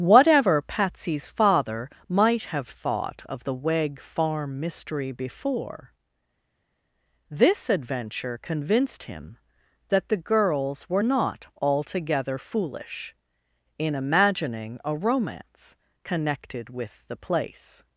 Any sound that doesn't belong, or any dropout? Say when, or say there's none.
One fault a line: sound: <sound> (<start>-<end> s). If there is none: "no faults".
no faults